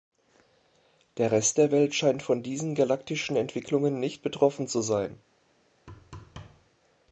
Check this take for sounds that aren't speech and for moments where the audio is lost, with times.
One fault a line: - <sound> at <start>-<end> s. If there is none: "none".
- thud at 5.9-6.7 s